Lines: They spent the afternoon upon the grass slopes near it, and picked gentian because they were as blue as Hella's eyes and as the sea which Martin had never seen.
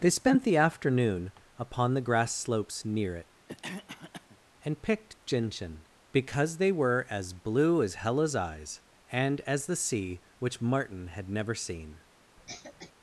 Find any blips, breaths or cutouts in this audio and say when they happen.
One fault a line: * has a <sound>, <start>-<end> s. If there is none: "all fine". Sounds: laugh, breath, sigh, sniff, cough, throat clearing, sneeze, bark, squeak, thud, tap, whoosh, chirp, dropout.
* has a cough, 3.5-4.4 s
* has a cough, 12.4-12.9 s